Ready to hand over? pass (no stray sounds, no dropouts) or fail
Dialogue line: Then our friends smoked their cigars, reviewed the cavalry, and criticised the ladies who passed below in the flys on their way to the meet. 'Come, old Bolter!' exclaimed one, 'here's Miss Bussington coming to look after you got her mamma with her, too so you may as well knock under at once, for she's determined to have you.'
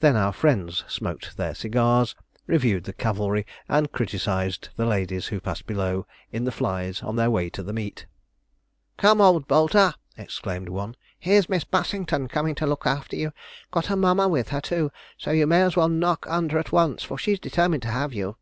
pass